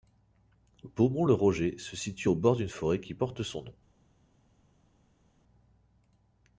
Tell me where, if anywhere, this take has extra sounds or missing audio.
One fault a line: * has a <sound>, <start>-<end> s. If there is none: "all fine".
all fine